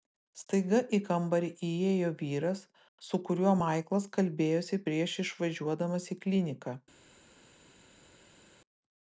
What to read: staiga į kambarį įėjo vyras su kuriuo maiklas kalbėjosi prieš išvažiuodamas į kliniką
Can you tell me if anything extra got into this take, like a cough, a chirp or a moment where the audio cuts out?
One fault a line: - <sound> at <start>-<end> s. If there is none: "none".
none